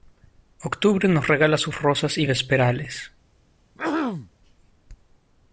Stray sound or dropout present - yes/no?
yes